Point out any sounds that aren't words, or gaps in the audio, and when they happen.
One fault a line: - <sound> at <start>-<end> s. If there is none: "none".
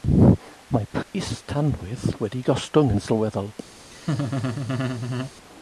- dropout at 1.0-1.1 s
- laugh at 3.9-5.3 s